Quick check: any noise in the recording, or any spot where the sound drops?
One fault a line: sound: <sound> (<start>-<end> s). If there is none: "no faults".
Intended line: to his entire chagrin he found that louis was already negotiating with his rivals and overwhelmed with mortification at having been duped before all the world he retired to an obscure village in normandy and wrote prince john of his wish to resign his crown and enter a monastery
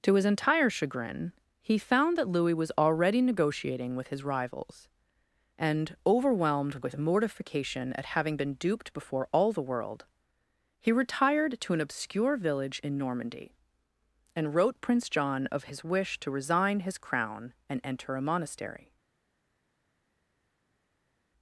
no faults